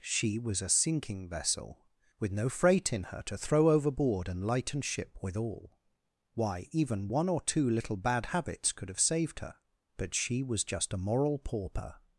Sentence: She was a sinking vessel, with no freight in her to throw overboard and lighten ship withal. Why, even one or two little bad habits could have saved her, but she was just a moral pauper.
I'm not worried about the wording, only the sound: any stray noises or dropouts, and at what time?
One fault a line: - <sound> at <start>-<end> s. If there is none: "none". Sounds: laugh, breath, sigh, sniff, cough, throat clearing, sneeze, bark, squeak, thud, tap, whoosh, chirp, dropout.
none